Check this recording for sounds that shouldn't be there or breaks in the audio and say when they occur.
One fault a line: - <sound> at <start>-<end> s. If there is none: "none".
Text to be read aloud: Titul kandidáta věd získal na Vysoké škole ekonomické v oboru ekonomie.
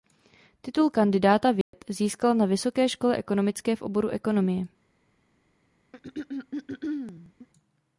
- dropout at 1.6-1.7 s
- throat clearing at 5.9-7.5 s